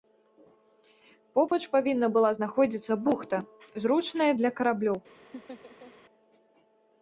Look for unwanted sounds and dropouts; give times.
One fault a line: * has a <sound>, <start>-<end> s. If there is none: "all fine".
* has a dropout, 1.5-1.5 s
* has a laugh, 5.3-5.9 s